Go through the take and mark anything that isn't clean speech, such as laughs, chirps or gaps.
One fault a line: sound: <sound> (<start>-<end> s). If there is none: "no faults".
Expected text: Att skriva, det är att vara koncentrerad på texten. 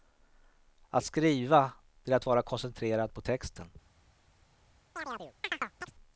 sound: chirp (5.0-5.9 s)